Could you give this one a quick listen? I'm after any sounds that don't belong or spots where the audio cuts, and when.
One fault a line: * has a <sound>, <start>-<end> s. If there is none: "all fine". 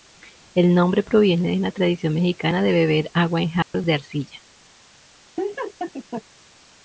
* has a dropout, 3.6-3.7 s
* has a laugh, 5.4-6.2 s